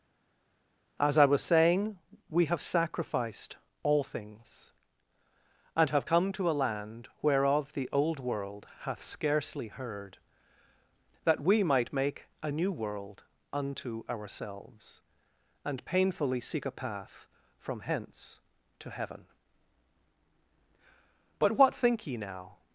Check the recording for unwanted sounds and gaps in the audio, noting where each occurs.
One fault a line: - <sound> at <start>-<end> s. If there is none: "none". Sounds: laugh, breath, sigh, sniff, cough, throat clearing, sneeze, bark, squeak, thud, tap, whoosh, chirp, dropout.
none